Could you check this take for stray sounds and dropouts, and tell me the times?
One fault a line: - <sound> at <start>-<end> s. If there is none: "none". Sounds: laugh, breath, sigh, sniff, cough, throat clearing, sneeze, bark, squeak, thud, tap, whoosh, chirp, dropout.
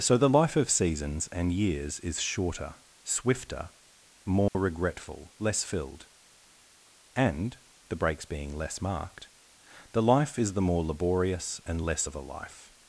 - dropout at 4.5-4.5 s